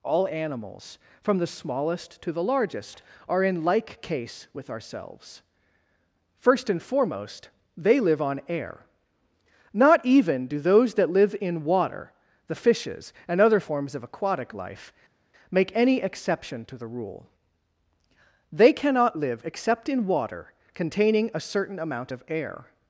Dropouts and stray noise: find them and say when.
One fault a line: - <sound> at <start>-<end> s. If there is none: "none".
none